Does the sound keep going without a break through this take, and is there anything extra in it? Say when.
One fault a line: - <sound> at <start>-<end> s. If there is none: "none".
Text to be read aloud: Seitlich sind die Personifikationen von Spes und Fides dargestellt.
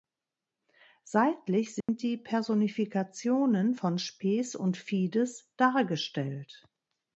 - dropout at 1.8-1.9 s